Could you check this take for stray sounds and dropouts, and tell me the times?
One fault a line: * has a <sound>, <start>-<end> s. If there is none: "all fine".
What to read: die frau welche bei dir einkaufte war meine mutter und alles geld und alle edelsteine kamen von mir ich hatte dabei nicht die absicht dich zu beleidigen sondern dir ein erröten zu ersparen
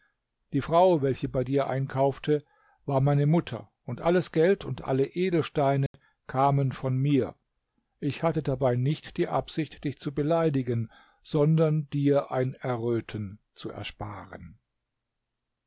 * has a dropout, 5.9-5.9 s